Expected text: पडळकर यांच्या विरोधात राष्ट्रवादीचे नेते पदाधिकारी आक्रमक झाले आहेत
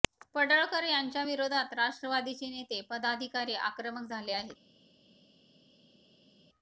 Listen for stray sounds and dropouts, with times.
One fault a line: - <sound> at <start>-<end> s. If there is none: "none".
none